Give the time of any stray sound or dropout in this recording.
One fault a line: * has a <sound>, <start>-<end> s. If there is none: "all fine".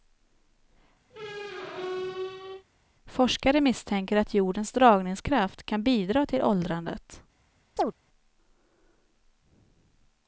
* has a squeak, 1.1-2.7 s
* has a chirp, 7.8-7.9 s